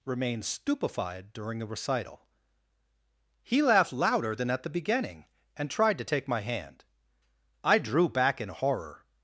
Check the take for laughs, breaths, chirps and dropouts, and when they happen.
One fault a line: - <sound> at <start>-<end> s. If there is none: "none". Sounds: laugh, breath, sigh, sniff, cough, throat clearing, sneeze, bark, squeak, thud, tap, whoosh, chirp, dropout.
none